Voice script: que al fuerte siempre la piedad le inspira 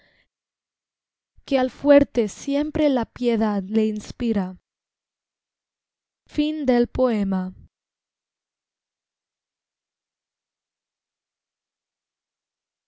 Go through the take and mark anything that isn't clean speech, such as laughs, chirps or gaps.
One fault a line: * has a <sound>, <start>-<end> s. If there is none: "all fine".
all fine